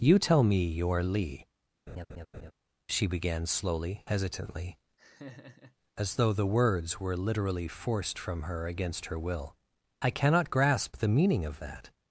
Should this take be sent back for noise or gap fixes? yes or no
yes